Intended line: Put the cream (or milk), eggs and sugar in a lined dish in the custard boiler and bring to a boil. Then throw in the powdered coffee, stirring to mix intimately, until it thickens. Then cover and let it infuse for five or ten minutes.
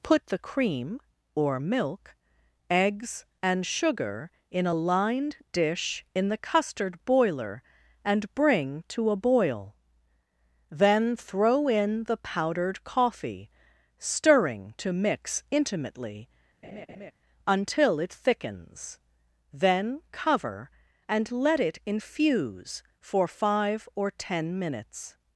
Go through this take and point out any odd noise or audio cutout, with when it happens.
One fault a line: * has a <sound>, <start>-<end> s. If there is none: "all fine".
* has a laugh, 16.6-17.1 s